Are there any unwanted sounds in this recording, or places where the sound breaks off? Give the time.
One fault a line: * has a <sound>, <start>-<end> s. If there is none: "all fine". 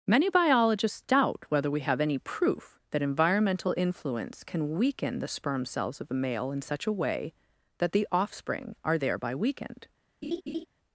* has a laugh, 10.2-10.7 s